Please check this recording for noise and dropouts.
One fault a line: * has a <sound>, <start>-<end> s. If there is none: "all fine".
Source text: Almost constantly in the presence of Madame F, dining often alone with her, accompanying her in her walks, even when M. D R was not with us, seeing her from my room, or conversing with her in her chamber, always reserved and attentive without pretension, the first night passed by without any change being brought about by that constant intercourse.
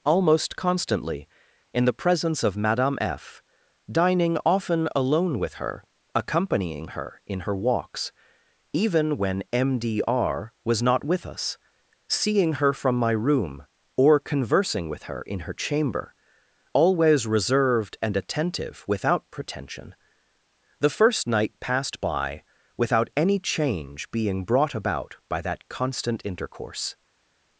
all fine